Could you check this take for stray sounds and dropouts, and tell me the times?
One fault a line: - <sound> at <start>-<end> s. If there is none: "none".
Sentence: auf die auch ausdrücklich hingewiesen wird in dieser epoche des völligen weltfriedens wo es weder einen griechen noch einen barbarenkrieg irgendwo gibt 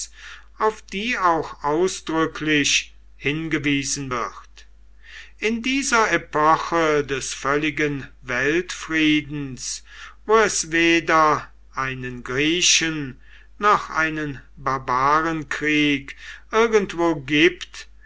none